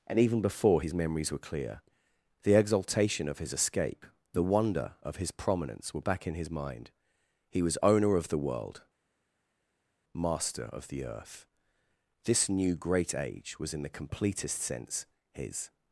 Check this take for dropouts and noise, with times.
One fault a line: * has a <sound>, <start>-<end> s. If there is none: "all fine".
all fine